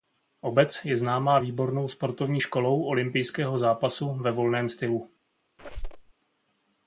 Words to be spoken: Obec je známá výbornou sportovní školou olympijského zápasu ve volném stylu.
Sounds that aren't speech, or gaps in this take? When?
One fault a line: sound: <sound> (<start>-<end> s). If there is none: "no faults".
sound: squeak (5.6-6.1 s)